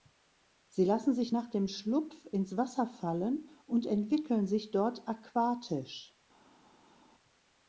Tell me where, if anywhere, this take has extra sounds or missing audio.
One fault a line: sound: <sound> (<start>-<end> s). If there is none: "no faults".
no faults